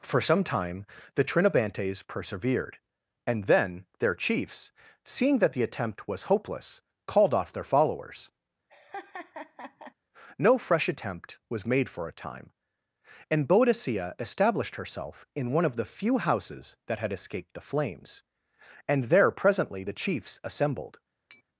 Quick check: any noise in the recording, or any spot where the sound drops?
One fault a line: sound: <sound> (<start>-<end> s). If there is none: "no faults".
sound: laugh (8.7-9.9 s)
sound: tap (21.3-21.4 s)